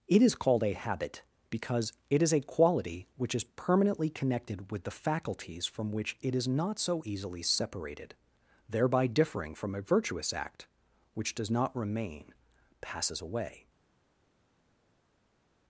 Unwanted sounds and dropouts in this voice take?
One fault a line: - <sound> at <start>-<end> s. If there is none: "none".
none